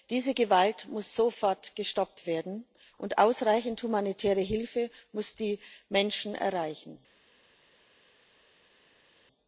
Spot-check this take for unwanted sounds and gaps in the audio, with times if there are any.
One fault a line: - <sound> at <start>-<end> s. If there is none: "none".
none